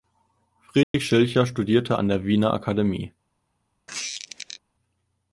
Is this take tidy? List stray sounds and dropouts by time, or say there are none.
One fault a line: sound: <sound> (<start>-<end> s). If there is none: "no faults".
sound: dropout (0.8-0.9 s)
sound: squeak (3.9-4.6 s)